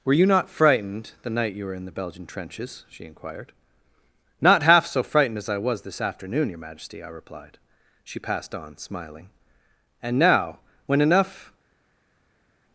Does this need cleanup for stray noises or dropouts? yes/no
no